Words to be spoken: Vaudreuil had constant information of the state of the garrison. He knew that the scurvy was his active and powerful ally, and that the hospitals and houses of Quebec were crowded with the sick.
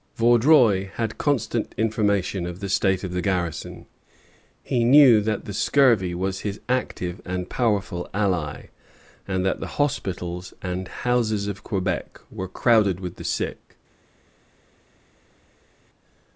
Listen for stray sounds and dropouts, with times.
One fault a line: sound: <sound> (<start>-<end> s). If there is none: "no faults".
no faults